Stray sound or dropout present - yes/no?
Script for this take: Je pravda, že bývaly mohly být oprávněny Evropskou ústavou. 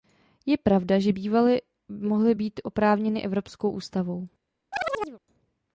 yes